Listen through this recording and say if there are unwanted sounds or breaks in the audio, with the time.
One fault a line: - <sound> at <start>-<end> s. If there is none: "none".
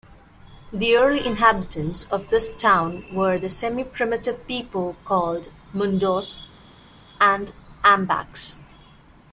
none